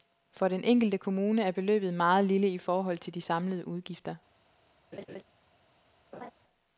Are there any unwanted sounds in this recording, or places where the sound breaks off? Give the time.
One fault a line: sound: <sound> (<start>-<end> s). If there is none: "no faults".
sound: laugh (4.9-5.2 s)
sound: laugh (6.1-6.3 s)